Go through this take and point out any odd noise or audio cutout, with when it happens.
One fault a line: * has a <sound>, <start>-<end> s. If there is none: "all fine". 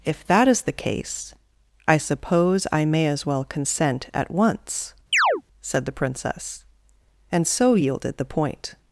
* has a chirp, 5.1-5.4 s